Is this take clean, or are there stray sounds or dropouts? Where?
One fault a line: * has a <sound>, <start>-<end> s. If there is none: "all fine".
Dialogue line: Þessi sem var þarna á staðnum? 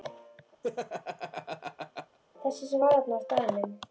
* has a laugh, 0.6-2.2 s